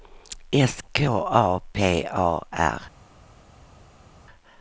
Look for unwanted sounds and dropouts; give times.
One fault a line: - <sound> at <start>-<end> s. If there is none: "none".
none